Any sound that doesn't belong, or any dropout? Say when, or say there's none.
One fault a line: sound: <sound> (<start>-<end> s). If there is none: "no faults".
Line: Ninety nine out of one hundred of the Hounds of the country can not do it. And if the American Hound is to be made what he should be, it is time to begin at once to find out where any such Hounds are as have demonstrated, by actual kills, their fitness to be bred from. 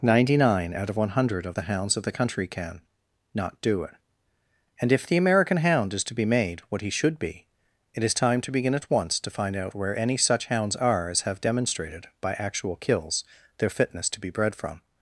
no faults